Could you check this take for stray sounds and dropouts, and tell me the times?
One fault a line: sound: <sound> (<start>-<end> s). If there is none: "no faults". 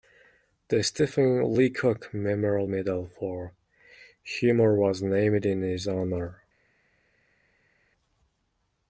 no faults